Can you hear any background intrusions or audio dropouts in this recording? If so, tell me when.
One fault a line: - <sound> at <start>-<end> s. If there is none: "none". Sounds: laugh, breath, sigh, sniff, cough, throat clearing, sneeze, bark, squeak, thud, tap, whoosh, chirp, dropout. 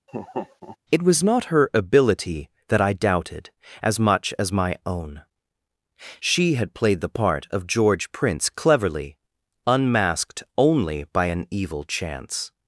- laugh at 0.1-0.8 s